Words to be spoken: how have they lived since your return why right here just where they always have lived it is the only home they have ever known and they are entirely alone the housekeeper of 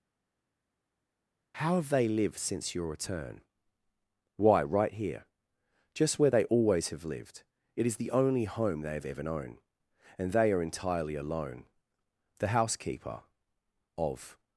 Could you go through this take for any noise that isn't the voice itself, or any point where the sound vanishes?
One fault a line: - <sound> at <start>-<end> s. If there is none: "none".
none